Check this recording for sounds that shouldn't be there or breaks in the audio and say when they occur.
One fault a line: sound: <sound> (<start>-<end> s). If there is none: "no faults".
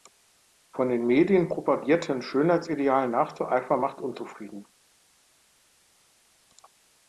no faults